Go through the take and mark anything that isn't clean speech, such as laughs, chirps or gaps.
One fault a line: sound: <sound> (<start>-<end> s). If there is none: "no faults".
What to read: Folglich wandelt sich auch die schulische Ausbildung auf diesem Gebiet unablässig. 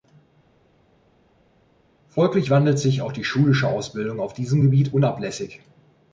no faults